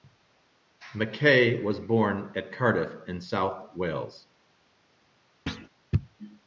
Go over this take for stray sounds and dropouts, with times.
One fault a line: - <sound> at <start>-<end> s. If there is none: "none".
- thud at 5.5-5.7 s